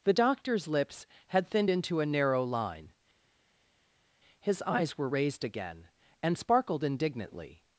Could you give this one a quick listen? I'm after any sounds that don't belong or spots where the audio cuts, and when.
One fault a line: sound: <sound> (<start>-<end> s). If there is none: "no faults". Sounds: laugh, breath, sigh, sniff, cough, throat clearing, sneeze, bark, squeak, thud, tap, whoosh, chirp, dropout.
no faults